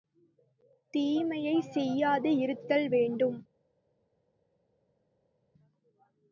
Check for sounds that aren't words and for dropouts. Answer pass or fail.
pass